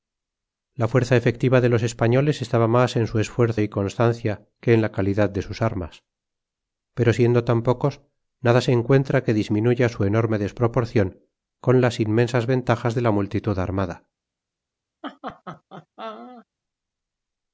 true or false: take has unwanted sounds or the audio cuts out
true